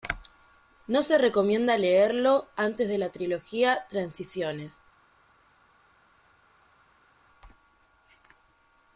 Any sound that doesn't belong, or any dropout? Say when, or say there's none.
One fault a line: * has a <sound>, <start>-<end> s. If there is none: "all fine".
all fine